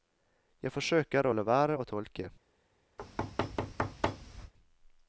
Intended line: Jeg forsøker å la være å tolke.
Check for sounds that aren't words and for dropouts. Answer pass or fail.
fail